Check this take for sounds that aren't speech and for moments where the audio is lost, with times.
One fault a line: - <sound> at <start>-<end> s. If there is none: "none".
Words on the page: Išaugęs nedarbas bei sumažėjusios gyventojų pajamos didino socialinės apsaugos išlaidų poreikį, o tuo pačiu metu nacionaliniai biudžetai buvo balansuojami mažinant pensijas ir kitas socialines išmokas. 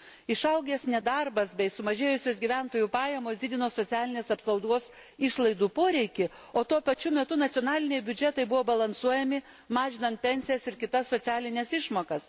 none